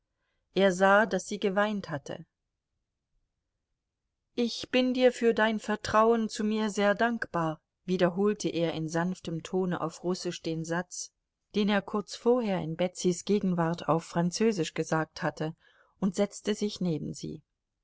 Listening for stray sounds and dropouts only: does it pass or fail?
pass